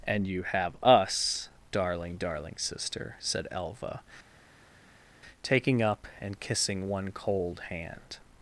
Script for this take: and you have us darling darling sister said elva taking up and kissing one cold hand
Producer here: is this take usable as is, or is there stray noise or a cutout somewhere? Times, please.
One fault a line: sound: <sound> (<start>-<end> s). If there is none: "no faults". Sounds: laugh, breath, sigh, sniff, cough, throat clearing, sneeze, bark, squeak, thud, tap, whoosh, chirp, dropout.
no faults